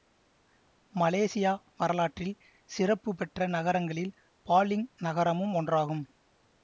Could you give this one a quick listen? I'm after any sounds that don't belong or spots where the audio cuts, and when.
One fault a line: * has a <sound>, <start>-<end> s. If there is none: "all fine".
all fine